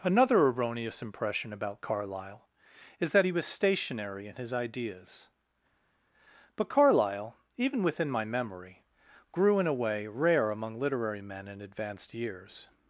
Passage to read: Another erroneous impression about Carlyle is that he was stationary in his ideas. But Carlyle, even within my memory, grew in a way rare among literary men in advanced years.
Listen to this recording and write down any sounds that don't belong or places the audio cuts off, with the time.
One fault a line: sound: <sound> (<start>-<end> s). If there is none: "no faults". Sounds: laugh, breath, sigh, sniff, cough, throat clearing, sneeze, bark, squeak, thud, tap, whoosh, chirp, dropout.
no faults